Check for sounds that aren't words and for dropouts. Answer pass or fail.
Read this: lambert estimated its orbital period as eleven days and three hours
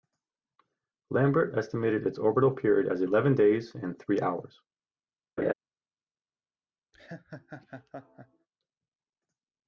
fail